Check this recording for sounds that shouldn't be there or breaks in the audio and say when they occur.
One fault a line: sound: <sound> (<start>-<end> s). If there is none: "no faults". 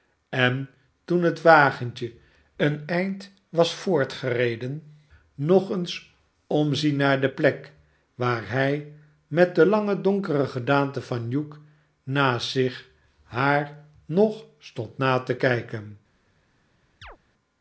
sound: chirp (17.0-17.2 s)